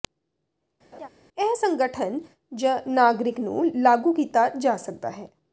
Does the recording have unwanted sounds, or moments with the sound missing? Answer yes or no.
yes